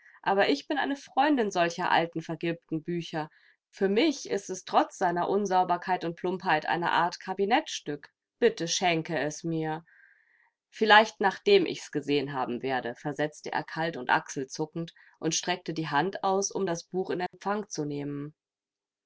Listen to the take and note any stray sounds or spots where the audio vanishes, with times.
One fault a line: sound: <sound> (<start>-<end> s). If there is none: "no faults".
sound: dropout (17.3-17.3 s)